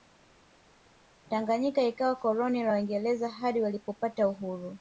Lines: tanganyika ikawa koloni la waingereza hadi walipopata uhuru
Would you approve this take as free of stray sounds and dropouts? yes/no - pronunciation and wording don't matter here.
yes